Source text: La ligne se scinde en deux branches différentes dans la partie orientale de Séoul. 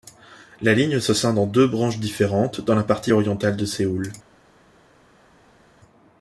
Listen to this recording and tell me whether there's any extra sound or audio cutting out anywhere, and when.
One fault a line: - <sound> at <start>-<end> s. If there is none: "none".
none